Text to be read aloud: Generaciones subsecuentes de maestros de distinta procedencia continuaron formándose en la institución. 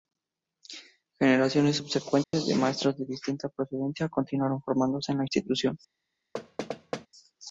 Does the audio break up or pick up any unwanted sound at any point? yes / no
yes